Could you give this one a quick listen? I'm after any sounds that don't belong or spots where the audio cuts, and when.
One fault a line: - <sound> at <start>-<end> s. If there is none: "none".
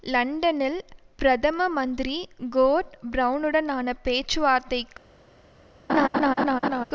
- laugh at 5.9-6.8 s